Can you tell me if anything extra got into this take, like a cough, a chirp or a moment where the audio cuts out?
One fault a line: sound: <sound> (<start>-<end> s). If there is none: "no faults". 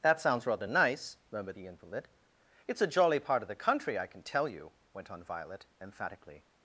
no faults